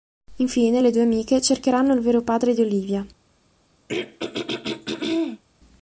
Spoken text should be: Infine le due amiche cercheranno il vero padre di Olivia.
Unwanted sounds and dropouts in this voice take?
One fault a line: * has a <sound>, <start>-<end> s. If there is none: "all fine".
* has a throat clearing, 3.9-5.4 s